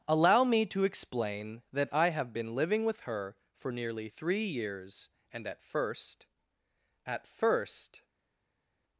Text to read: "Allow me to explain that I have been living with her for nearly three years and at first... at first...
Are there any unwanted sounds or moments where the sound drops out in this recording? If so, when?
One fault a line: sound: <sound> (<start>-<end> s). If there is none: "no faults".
no faults